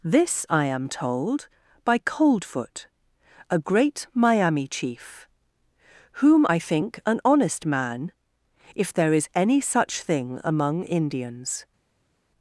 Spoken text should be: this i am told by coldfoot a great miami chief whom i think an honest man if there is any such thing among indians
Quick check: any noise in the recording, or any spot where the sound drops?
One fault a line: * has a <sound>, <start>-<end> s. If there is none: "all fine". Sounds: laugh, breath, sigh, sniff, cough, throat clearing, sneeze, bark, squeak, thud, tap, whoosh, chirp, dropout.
all fine